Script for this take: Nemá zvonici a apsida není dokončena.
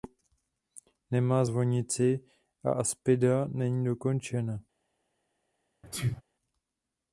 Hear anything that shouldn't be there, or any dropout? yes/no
yes